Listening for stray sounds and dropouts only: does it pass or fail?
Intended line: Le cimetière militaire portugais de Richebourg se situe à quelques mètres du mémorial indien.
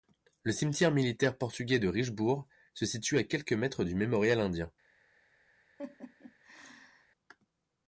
fail